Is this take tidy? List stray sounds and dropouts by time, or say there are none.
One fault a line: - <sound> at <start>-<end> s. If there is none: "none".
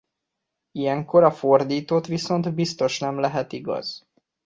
none